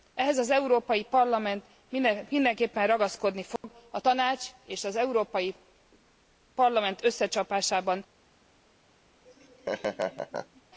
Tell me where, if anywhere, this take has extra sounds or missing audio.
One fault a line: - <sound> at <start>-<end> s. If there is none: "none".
- dropout at 3.6-3.6 s
- laugh at 9.3-10.6 s